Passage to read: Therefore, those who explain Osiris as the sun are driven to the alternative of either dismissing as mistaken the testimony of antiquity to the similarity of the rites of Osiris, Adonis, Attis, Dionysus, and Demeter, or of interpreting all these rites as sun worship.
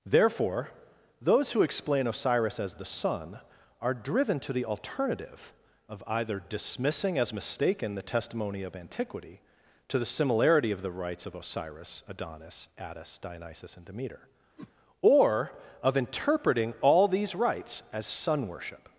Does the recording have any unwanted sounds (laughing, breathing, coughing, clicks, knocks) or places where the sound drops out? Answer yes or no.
yes